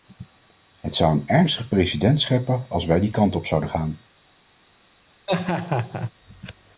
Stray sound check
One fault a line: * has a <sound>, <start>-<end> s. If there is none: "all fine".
* has a laugh, 5.3-6.1 s